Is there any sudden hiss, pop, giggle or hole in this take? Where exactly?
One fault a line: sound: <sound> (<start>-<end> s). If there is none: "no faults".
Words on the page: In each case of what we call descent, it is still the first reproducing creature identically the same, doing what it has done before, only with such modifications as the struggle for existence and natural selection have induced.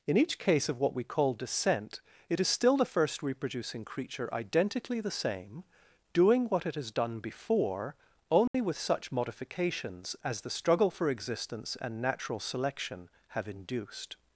sound: dropout (8.5-8.5 s)